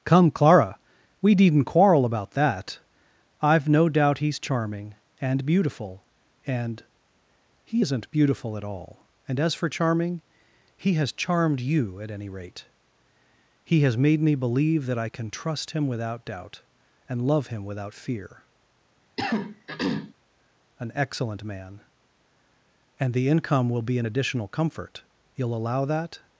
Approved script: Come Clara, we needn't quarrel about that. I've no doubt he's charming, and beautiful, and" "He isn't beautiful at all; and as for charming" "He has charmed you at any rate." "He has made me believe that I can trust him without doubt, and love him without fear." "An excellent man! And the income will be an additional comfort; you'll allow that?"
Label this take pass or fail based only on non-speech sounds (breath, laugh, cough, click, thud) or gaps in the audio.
fail